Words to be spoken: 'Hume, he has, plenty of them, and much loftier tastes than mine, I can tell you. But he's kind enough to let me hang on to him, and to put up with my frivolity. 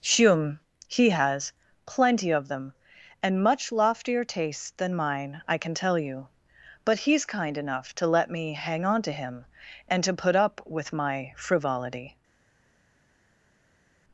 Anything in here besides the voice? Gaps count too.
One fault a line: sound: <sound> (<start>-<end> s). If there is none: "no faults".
no faults